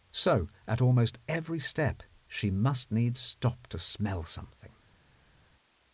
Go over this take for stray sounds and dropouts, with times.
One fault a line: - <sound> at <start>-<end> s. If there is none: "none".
none